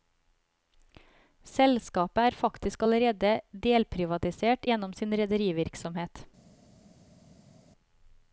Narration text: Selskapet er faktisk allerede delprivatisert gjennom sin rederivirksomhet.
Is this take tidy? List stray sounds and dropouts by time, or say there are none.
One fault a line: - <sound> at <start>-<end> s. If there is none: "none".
none